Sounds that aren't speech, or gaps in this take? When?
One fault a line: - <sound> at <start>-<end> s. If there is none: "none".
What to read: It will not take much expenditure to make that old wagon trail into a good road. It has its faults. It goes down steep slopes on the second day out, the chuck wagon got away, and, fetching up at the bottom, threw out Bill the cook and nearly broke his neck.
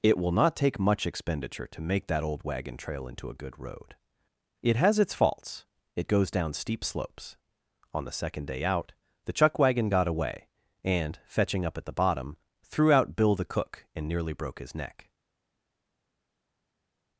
none